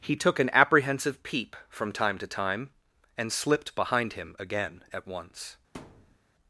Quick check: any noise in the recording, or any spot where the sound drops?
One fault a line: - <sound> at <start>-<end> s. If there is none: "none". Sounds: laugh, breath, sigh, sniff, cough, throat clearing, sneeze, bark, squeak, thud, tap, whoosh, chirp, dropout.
- thud at 5.7-6.2 s